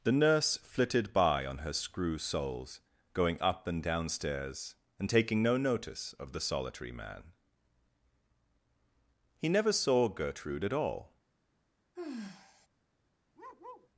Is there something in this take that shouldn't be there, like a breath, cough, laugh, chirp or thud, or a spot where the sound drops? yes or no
yes